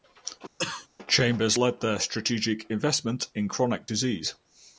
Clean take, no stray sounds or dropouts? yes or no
no